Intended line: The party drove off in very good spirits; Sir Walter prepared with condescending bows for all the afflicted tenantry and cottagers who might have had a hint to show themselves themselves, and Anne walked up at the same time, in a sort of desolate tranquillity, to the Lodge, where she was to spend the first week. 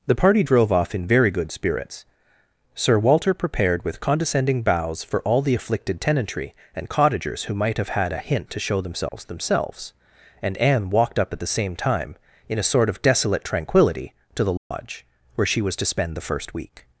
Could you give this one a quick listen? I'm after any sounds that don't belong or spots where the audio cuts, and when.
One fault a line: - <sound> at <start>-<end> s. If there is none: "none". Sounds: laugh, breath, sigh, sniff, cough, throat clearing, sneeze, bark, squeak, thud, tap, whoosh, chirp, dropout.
- dropout at 9.1-9.1 s
- dropout at 14.6-14.7 s